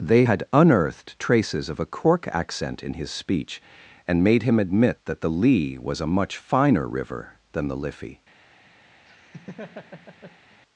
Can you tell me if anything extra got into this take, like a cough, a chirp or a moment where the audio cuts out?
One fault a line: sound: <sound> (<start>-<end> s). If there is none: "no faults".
sound: laugh (9.1-10.6 s)